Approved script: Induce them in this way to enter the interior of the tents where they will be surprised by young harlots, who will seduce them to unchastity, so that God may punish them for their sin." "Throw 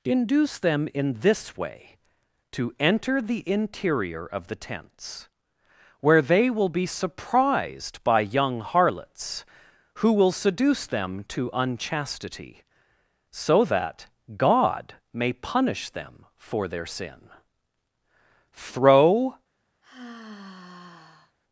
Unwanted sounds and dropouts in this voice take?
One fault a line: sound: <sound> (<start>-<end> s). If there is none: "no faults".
sound: sigh (19.8-21.4 s)